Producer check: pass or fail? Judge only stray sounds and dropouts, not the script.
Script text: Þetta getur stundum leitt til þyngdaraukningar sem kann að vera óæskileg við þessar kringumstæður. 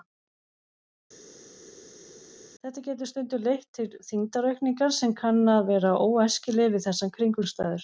pass